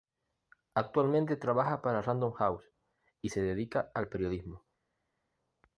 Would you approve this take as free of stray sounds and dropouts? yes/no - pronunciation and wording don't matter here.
yes